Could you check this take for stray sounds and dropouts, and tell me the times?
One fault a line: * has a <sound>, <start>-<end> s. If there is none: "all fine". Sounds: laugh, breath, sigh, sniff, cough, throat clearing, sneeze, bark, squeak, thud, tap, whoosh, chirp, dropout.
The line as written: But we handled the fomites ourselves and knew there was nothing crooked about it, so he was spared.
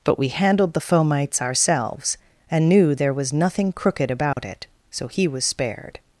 * has a dropout, 4.3-4.4 s